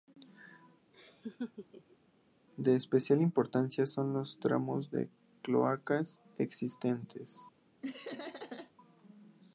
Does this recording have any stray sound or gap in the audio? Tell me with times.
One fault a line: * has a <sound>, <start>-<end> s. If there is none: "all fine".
* has a laugh, 0.9-2.0 s
* has a laugh, 7.8-8.7 s